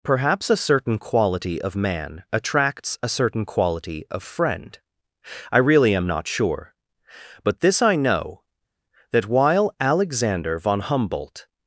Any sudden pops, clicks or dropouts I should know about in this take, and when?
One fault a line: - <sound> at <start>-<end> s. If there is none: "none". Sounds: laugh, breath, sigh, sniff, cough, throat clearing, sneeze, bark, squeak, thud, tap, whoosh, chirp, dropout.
none